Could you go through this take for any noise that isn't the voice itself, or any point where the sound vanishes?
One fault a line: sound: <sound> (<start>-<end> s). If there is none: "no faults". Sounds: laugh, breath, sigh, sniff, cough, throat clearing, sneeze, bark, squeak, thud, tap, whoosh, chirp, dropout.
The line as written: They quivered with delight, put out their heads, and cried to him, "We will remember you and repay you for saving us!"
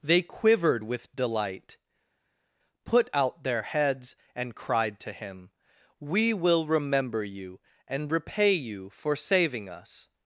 no faults